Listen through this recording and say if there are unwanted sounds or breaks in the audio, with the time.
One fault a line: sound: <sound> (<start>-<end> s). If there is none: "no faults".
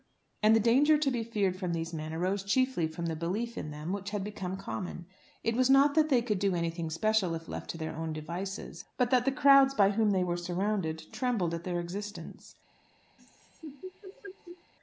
sound: laugh (13.2-14.7 s)